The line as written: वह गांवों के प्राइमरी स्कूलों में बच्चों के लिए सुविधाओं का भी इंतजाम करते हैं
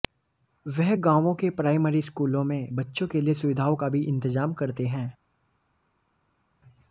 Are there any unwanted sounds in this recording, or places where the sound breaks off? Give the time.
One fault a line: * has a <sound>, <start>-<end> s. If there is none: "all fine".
all fine